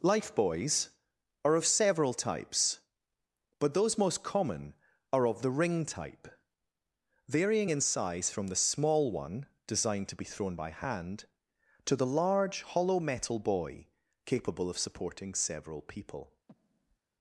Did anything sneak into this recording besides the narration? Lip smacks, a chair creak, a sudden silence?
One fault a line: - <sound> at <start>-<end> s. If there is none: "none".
- breath at 16.5-17.0 s